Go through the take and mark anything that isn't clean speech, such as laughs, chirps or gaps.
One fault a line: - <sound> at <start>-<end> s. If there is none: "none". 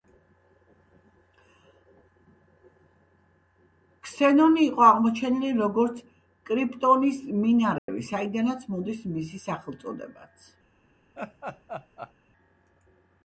- dropout at 7.8-7.9 s
- laugh at 11.2-12.1 s